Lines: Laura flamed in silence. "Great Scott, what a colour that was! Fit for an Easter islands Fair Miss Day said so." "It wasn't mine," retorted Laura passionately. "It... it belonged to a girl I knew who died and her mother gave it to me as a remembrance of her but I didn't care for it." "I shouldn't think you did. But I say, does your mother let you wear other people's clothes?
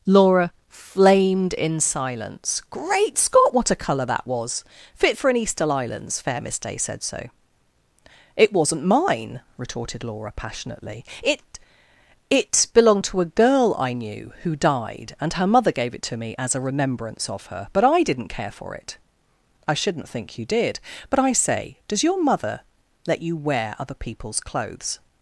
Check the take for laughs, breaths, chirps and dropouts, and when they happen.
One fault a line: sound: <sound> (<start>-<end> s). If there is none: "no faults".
no faults